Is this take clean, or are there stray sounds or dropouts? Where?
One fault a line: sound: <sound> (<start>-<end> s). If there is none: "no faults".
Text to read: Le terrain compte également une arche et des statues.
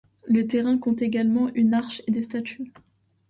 no faults